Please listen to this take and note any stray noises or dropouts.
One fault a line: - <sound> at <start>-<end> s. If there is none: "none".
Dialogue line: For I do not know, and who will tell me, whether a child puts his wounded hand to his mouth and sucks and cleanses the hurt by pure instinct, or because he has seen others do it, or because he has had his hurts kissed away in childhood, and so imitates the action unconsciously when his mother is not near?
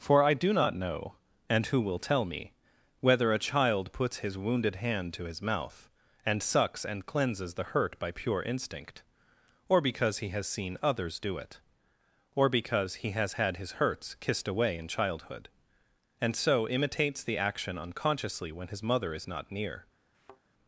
- thud at 20.1-20.4 s